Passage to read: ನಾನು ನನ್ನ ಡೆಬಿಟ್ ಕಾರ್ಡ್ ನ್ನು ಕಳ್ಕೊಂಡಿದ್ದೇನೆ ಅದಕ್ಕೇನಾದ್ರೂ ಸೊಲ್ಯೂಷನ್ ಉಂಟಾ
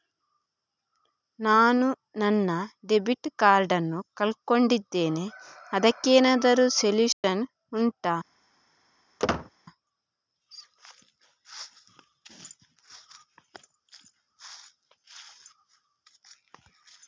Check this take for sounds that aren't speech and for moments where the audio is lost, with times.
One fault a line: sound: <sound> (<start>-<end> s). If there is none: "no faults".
sound: dropout (7.1-7.2 s)
sound: squeak (9.2-9.5 s)